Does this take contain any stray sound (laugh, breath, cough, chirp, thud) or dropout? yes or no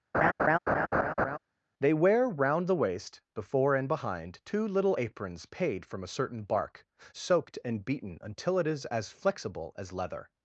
yes